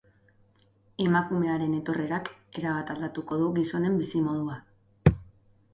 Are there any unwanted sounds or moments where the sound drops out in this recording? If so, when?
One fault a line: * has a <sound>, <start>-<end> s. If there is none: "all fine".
all fine